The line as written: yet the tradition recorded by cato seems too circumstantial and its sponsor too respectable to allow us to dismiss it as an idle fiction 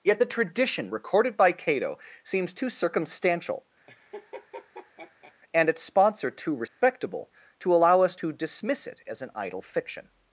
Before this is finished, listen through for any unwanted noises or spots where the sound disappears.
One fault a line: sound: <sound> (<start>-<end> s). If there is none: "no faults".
sound: laugh (3.9-5.3 s)
sound: dropout (6.7-6.8 s)